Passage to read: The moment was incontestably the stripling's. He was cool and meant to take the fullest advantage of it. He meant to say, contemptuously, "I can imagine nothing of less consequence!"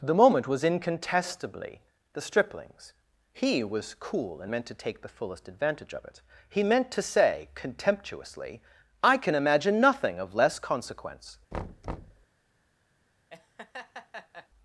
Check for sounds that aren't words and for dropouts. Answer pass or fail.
fail